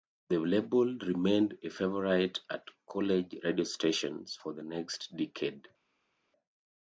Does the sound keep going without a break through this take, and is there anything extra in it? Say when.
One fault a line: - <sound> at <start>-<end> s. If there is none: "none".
none